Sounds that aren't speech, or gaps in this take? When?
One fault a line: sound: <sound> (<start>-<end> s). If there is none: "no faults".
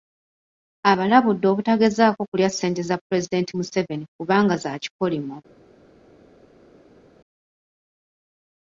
no faults